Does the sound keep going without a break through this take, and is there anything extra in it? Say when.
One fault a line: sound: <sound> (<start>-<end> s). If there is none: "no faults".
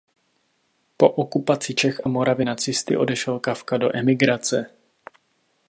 no faults